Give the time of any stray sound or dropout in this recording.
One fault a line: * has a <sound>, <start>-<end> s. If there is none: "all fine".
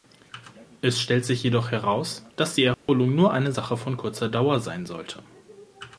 * has a dropout, 2.7-2.9 s